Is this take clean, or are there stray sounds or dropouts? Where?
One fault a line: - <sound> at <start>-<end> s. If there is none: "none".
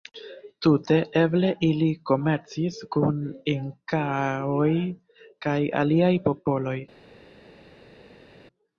none